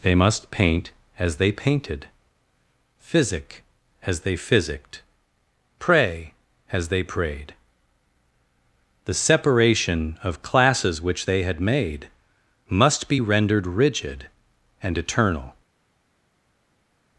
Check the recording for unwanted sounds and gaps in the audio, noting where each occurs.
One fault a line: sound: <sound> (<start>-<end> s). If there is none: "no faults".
no faults